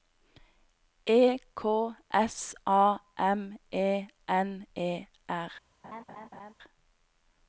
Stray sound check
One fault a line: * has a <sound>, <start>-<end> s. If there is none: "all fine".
* has a laugh, 5.8-6.5 s